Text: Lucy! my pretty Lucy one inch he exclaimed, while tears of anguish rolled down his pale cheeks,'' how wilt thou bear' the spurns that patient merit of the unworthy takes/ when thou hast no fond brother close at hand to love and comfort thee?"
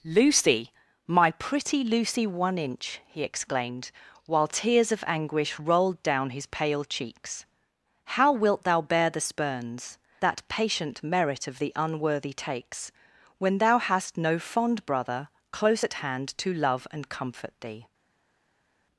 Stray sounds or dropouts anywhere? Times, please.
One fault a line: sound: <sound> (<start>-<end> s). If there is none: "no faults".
no faults